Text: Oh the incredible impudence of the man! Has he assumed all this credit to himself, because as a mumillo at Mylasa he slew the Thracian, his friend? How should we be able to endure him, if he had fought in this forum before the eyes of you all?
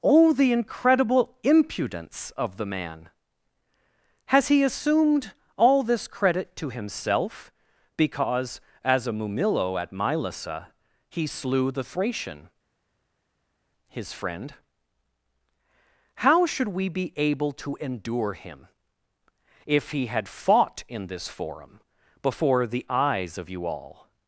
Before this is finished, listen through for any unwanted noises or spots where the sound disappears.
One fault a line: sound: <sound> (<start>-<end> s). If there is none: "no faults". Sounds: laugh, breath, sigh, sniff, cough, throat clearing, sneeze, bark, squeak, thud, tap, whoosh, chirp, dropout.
no faults